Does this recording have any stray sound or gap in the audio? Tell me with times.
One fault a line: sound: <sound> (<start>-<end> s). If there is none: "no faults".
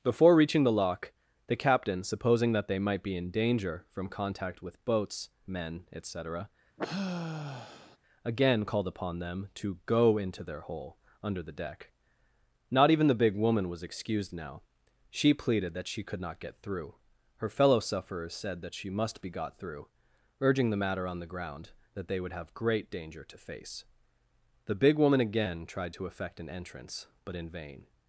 sound: sigh (6.8-8.0 s)